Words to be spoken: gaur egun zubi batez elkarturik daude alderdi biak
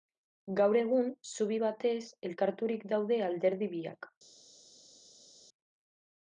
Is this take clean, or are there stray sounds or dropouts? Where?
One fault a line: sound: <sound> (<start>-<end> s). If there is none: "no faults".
no faults